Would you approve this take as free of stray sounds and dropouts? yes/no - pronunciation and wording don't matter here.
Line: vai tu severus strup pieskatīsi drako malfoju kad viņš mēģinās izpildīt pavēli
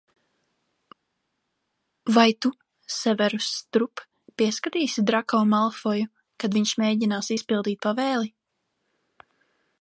yes